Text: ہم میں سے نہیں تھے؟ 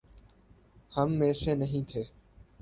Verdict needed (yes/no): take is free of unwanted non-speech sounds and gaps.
yes